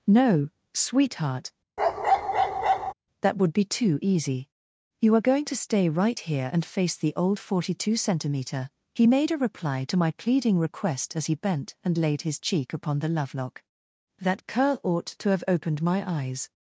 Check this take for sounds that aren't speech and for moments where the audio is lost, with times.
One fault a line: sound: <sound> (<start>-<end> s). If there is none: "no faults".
sound: bark (1.8-2.9 s)